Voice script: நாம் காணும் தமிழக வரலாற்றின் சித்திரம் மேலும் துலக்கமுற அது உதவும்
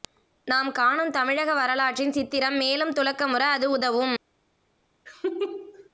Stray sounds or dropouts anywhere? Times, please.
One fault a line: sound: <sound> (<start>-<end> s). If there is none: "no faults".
sound: laugh (5.1-5.9 s)